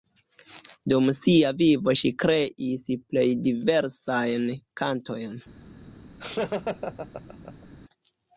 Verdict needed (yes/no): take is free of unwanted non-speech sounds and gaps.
no